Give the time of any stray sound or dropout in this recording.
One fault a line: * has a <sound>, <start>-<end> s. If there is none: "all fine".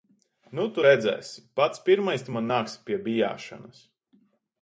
all fine